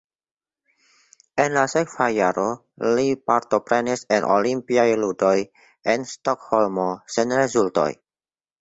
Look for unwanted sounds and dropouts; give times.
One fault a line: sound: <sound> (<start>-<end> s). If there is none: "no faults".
no faults